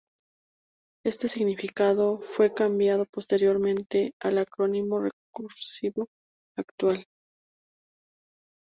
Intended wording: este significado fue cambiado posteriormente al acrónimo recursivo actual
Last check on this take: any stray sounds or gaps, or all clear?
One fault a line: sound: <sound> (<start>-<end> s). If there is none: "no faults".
no faults